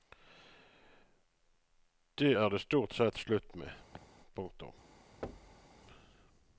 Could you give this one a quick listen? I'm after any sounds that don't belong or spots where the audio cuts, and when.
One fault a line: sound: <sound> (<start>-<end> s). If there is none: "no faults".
sound: laugh (3.9-4.1 s)
sound: thud (5.2-5.7 s)